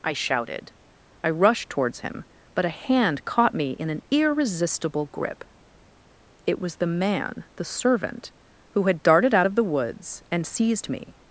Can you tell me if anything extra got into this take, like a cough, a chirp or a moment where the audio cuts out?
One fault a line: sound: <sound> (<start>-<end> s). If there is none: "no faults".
no faults